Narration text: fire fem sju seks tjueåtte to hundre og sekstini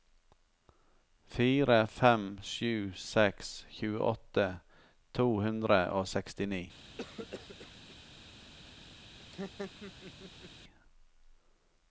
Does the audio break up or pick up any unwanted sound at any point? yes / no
yes